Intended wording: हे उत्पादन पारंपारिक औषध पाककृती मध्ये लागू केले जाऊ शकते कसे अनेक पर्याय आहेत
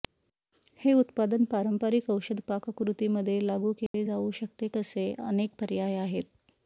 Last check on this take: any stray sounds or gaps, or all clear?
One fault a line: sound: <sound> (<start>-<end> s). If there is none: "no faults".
sound: dropout (3.9-3.9 s)